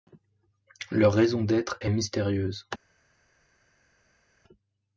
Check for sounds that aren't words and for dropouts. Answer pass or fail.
pass